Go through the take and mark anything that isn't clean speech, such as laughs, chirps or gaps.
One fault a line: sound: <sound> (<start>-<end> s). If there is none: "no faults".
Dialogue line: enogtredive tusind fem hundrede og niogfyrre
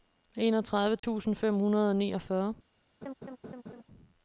sound: dropout (1.0-1.0 s)
sound: laugh (3.0-3.8 s)